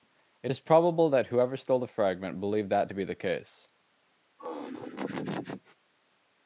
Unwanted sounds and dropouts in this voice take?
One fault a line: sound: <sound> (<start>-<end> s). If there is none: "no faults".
sound: laugh (4.4-5.8 s)